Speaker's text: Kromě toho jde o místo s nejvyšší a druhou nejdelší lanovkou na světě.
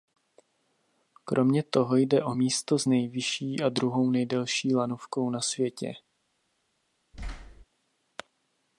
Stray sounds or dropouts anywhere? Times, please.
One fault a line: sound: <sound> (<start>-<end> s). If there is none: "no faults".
sound: thud (7.1-7.6 s)